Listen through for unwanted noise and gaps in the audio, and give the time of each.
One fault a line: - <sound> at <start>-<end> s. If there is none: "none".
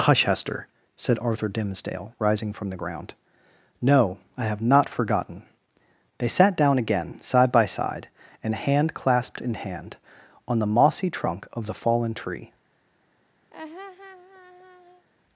- laugh at 13.5-15.1 s